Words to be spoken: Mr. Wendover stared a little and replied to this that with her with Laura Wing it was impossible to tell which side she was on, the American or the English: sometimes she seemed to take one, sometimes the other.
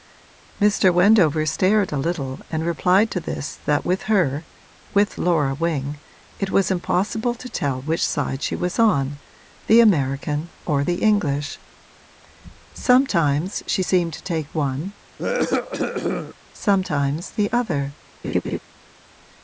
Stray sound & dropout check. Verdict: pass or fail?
fail